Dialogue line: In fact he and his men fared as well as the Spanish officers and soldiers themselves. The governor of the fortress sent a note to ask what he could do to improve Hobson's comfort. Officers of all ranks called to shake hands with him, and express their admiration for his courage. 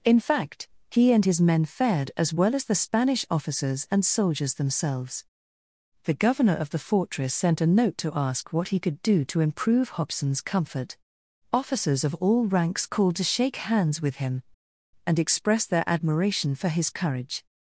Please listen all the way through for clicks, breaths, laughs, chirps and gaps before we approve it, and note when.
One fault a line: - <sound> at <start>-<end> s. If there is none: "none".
none